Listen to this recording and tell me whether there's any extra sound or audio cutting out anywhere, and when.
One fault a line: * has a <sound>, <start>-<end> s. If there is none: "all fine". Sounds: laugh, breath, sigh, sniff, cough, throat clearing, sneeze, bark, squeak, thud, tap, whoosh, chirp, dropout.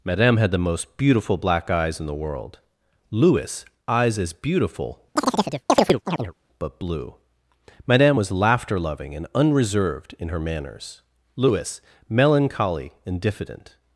* has a chirp, 5.2-6.3 s